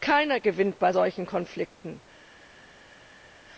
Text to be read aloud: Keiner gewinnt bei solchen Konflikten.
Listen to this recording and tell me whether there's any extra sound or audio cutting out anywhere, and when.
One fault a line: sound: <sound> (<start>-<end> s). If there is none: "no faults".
no faults